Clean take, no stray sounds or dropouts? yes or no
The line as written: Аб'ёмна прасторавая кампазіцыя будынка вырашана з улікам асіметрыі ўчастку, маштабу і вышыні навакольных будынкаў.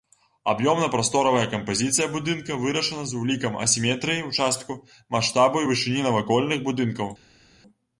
yes